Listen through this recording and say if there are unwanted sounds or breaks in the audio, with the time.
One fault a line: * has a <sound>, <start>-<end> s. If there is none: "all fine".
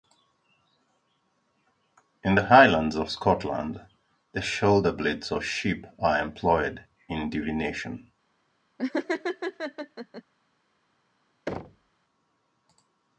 * has a laugh, 8.8-10.2 s
* has a thud, 11.5-11.9 s